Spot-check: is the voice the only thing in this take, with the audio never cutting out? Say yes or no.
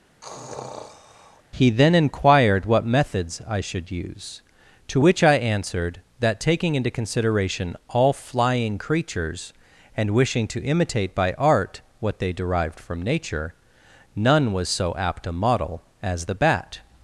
no